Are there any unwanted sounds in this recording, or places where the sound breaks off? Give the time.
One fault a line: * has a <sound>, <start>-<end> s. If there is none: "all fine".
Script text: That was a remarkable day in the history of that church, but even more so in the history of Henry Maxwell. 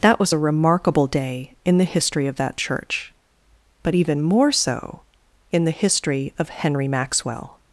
all fine